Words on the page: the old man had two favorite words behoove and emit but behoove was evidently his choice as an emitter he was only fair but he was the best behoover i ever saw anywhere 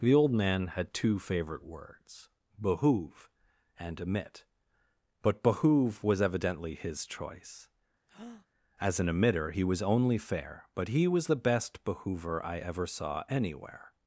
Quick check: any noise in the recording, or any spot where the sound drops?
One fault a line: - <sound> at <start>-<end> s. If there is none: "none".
- breath at 8.1-8.5 s